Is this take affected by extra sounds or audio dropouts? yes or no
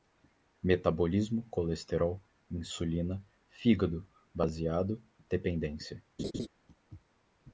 yes